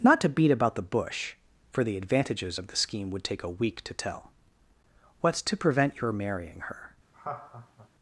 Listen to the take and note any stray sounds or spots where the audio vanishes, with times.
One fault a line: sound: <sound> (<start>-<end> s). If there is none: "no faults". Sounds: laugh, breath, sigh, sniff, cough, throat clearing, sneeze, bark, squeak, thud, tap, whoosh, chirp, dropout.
sound: laugh (7.1-7.9 s)